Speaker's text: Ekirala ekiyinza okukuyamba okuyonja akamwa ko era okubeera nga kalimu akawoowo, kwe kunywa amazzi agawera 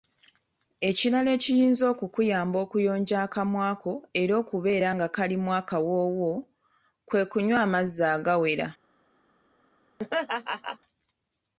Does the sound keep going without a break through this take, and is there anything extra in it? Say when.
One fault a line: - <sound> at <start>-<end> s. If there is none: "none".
- laugh at 10.0-10.8 s